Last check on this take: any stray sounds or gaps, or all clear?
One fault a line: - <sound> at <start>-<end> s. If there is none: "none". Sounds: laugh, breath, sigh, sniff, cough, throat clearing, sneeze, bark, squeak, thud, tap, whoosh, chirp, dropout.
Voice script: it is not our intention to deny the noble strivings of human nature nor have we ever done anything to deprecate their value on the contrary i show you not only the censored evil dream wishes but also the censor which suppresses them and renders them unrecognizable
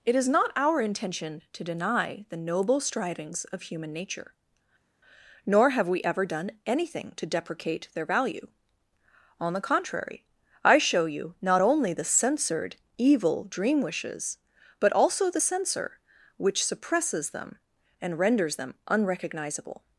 none